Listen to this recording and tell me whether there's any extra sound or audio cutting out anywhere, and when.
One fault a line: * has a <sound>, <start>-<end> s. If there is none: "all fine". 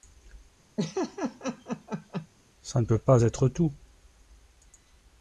* has a laugh, 0.8-2.3 s